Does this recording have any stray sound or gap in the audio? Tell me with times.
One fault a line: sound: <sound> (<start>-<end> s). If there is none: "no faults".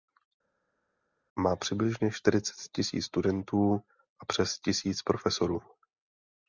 no faults